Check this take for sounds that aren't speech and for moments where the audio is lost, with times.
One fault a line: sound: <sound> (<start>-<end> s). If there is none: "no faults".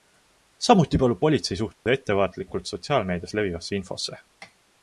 sound: dropout (1.7-1.9 s)